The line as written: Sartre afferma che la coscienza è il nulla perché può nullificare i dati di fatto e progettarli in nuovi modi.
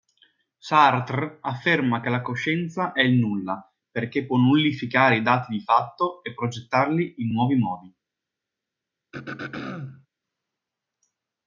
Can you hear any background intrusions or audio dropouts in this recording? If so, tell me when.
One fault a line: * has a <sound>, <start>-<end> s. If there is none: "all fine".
* has a throat clearing, 9.1-10.1 s